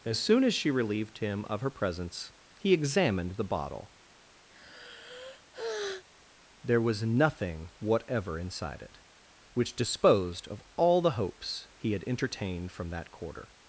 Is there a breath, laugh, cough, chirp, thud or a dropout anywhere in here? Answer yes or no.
yes